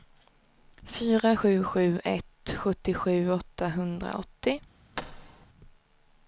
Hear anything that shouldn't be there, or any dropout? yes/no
yes